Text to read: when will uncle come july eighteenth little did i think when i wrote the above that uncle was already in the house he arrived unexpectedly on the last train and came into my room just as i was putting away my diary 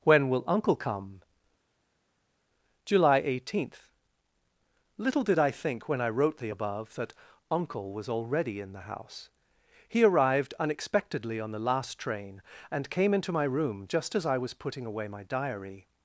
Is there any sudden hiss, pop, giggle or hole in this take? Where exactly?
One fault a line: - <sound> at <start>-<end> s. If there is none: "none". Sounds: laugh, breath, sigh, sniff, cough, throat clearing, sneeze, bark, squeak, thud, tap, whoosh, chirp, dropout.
none